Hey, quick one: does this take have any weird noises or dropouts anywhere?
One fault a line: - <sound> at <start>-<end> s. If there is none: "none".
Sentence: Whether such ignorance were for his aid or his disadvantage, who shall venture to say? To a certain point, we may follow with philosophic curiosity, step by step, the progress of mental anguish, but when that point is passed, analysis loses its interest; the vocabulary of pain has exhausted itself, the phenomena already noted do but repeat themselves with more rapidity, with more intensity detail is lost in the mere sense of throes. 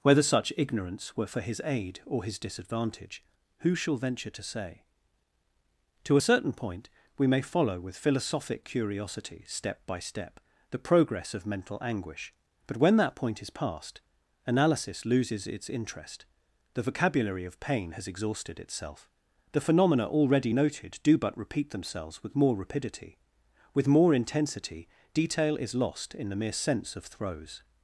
none